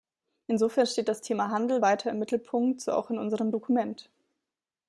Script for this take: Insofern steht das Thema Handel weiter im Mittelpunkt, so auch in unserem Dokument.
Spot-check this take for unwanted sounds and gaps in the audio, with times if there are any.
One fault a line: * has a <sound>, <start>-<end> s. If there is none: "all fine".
all fine